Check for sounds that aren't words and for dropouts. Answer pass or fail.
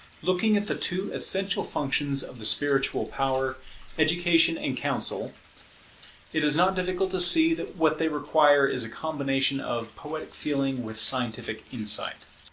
pass